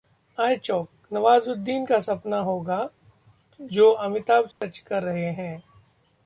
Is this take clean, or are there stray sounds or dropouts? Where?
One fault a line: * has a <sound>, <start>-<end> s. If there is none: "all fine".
* has a dropout, 4.5-4.6 s